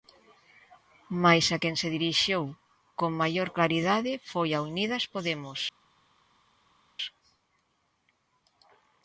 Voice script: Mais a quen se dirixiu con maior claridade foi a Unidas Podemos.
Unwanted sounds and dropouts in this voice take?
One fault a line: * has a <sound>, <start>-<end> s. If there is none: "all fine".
all fine